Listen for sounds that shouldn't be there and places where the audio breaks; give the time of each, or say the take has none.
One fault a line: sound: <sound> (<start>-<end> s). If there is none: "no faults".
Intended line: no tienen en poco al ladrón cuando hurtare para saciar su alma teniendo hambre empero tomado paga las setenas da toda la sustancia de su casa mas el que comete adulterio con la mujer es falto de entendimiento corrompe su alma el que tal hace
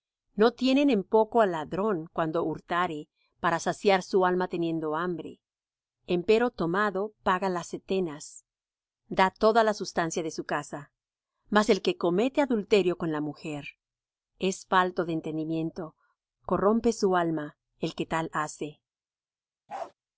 sound: bark (19.7-19.9 s)